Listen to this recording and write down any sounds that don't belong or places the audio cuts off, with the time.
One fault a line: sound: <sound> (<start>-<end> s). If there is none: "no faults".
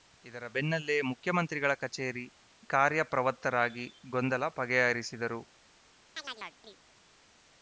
sound: chirp (6.2-6.8 s)